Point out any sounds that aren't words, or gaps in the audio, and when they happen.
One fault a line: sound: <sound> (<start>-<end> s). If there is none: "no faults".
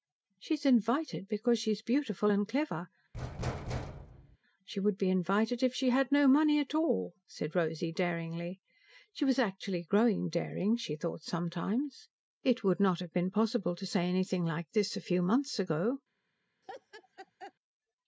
sound: thud (3.1-4.4 s)
sound: laugh (16.6-17.5 s)